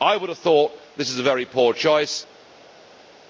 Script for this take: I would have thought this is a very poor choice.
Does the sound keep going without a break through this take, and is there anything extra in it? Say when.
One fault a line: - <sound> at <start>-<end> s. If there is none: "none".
none